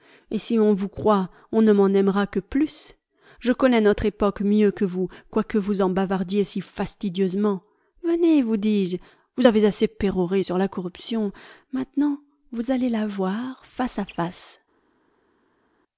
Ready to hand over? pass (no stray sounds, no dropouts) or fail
pass